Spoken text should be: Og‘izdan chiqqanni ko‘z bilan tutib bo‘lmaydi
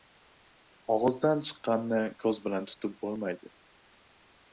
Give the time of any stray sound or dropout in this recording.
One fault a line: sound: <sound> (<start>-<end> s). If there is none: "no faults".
no faults